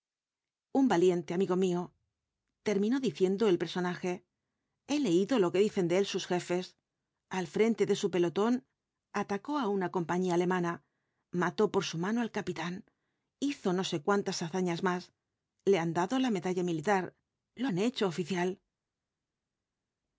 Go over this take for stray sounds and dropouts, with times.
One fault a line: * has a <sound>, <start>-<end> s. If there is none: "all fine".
all fine